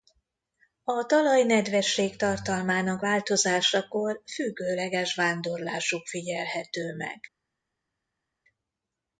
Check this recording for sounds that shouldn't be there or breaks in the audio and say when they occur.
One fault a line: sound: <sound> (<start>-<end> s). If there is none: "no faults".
no faults